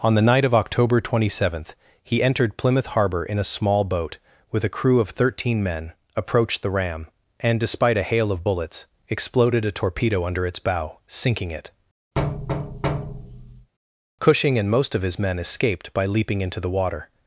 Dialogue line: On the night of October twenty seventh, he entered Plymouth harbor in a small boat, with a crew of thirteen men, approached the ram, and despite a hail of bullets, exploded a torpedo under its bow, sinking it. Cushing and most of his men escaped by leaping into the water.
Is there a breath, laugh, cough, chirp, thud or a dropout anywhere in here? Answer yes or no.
yes